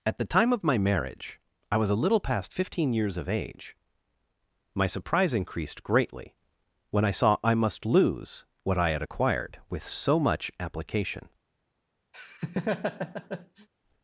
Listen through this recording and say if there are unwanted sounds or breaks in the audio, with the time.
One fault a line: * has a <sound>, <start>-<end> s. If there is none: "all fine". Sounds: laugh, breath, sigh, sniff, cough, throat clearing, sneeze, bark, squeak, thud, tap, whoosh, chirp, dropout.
* has a laugh, 12.1-13.7 s